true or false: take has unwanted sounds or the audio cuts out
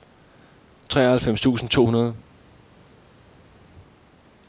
false